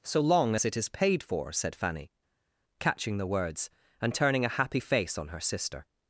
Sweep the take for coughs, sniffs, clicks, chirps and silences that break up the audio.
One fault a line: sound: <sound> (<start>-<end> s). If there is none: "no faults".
no faults